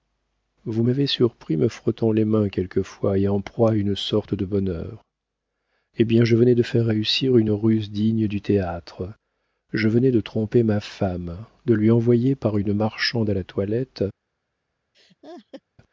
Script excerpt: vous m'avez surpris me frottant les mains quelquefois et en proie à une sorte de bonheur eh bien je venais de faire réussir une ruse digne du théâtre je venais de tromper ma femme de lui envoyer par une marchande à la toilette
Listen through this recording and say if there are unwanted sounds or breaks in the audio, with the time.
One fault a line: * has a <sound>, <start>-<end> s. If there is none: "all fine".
* has a laugh, 14.9-15.6 s